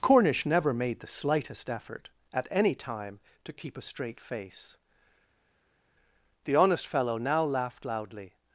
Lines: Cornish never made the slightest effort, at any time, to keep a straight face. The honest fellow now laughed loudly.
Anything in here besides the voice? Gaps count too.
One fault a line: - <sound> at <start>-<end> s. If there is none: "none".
none